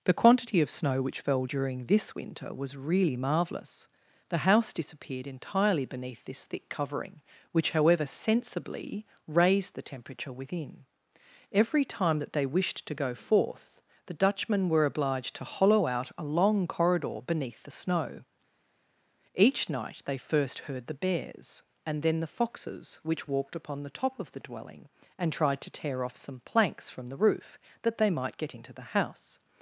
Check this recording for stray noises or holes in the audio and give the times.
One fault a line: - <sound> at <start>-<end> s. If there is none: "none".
none